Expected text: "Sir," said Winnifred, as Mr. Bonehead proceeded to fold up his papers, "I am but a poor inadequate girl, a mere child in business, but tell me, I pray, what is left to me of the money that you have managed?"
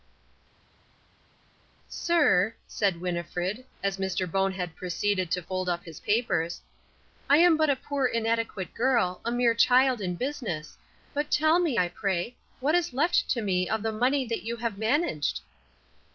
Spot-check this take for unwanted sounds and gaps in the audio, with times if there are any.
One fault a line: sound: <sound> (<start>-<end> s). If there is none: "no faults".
no faults